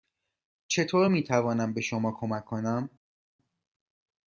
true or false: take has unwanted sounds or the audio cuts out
false